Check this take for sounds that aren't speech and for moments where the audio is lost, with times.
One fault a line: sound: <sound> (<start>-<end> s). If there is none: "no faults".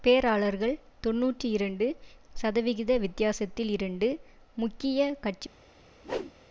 sound: whoosh (6.0-6.3 s)